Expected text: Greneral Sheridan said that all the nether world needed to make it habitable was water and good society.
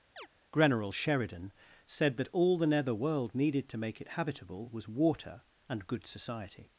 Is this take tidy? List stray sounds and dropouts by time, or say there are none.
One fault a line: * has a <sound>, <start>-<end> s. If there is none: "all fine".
* has a chirp, 0.2-0.3 s